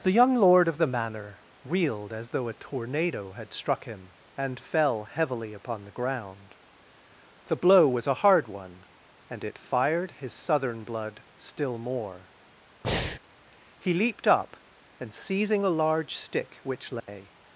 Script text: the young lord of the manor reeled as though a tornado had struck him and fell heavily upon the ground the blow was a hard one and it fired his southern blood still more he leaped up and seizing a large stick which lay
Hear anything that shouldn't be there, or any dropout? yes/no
yes